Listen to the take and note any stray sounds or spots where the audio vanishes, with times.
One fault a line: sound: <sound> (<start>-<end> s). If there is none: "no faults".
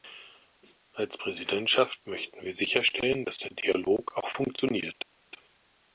no faults